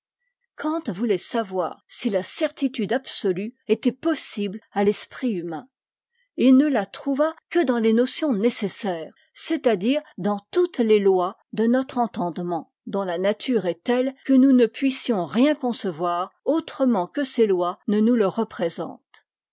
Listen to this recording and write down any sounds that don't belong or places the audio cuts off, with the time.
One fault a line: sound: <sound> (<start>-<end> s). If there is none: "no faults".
no faults